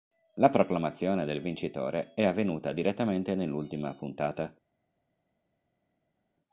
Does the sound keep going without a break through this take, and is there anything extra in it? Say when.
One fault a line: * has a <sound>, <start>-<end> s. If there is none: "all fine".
all fine